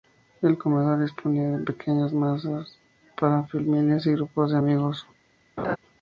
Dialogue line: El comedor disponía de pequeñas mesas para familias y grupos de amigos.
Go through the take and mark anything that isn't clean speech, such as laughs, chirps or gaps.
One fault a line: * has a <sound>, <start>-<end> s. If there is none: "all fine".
* has a laugh, 5.6-5.8 s